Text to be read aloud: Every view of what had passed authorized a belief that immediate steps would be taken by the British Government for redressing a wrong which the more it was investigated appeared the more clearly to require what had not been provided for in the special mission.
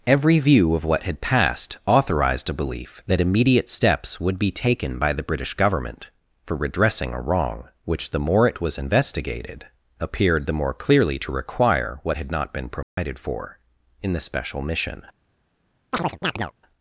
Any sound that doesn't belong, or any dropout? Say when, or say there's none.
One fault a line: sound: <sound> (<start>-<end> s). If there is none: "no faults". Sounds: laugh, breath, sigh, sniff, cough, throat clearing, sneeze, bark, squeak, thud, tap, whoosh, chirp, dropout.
sound: dropout (12.8-13.0 s)
sound: chirp (15.9-16.5 s)